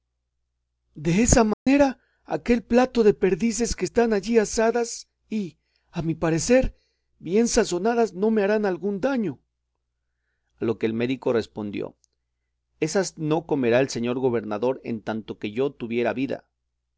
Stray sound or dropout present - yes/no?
yes